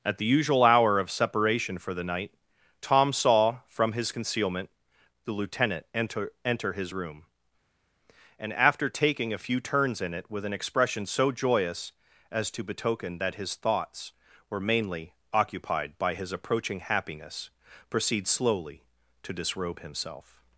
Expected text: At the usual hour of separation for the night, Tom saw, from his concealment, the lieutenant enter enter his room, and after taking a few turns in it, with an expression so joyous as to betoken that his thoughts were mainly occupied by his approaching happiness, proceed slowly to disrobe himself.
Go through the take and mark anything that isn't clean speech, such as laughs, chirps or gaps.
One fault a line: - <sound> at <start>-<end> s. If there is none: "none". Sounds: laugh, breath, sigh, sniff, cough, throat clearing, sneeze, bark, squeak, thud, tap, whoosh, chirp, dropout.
none